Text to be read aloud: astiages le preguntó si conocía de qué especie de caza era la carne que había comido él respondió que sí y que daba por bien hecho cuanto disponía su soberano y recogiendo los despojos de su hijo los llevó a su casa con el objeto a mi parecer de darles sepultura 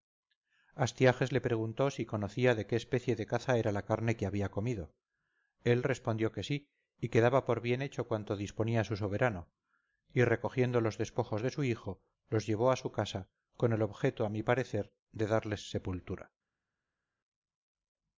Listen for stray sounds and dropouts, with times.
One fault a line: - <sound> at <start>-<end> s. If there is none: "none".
none